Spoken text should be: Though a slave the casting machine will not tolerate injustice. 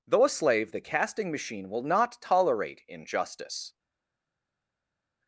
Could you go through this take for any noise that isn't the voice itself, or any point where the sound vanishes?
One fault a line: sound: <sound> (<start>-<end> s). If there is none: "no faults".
no faults